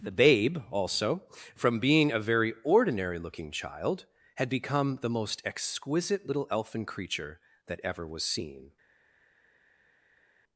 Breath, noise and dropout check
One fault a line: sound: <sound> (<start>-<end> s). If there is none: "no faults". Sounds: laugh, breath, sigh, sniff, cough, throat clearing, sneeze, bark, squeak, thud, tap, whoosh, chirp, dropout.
no faults